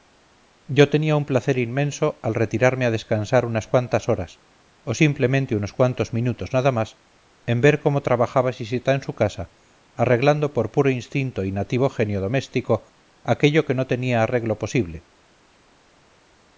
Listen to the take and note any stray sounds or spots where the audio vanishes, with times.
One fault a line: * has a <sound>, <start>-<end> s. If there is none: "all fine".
all fine